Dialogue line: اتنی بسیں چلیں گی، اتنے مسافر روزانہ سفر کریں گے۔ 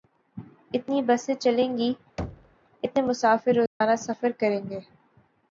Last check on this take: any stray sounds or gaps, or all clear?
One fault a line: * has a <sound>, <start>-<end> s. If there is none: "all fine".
* has a thud, 2.2-2.6 s
* has a dropout, 3.7-3.8 s